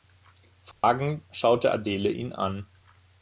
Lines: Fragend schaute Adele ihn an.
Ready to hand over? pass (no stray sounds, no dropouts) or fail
fail